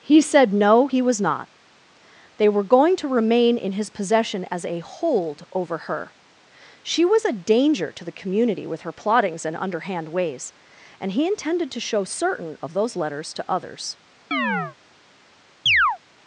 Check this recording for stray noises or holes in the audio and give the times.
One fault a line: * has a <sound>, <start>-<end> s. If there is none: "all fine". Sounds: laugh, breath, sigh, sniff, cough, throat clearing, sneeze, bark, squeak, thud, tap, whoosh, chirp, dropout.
* has a chirp, 14.3-14.8 s
* has a chirp, 15.7-16.0 s